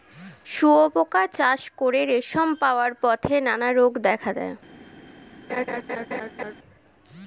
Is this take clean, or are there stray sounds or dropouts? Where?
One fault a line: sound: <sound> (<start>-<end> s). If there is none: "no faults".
sound: laugh (5.5-6.5 s)